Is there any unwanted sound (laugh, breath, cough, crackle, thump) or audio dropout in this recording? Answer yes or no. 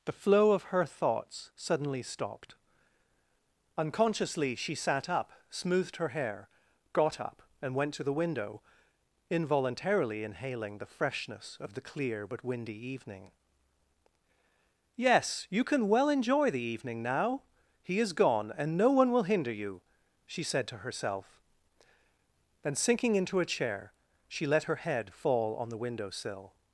no